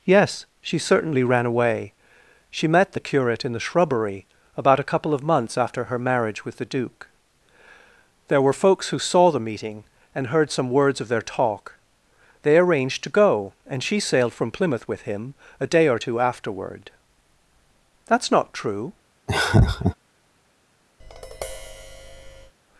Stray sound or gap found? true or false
true